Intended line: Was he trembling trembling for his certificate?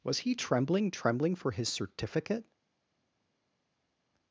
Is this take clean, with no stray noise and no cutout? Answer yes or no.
yes